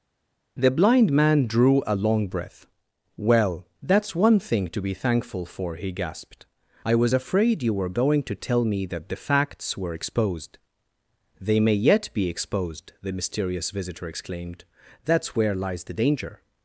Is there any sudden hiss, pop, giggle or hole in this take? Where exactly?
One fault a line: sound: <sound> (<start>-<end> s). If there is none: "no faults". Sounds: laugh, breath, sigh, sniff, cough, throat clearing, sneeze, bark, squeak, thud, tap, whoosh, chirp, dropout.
no faults